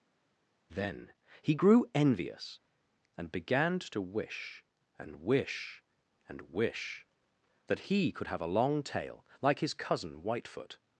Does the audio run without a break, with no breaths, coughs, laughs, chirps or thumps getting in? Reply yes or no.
yes